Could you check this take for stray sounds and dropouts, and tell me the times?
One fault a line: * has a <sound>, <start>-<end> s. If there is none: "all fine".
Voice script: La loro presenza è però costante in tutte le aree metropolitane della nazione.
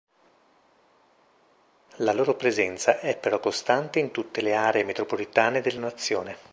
all fine